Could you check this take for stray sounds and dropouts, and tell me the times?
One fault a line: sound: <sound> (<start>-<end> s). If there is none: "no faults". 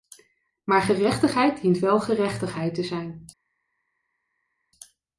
no faults